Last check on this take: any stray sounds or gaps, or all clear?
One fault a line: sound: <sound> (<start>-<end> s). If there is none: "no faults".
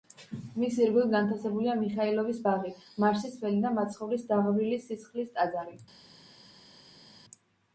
no faults